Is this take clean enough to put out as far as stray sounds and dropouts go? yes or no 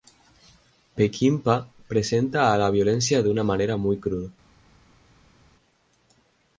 yes